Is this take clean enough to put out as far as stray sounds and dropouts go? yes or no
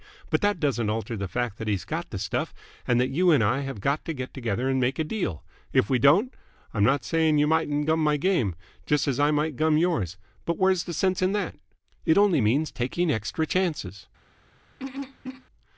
no